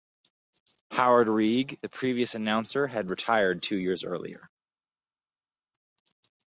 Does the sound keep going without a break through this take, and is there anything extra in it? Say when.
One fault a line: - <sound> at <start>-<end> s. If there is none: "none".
none